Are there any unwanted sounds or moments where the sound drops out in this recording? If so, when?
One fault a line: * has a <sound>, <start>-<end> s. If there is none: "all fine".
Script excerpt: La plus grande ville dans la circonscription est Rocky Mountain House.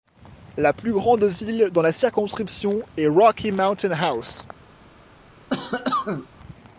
* has a cough, 5.5-6.3 s